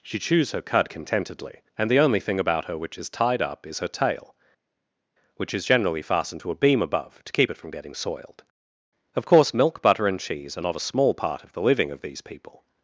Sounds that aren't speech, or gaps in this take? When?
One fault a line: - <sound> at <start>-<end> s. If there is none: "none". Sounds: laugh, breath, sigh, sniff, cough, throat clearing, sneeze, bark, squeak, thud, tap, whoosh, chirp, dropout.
none